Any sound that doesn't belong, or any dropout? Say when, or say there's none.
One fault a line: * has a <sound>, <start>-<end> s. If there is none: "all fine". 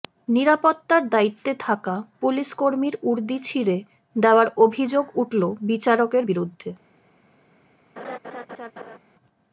* has a laugh, 8.0-9.0 s